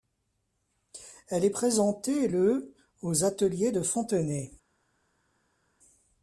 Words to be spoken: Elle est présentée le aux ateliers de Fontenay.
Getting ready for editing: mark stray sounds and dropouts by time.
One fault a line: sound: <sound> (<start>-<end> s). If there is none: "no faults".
no faults